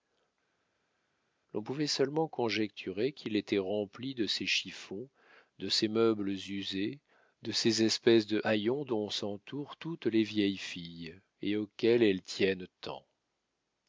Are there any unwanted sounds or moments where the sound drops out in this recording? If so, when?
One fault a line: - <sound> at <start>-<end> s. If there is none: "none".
none